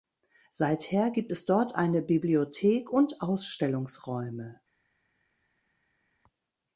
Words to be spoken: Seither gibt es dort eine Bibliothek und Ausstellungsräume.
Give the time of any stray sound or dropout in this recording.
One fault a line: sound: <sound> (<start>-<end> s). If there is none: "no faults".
no faults